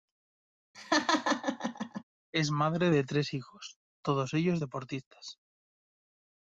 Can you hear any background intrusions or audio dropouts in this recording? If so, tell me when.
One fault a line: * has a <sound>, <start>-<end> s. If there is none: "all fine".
* has a laugh, 0.7-2.0 s